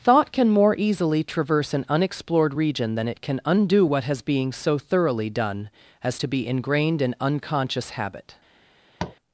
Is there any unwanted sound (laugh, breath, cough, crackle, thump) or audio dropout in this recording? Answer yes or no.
yes